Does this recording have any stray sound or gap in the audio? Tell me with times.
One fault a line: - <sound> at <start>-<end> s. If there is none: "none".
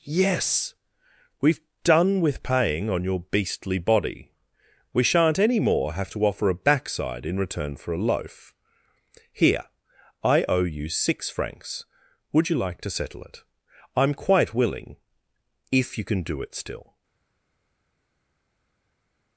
none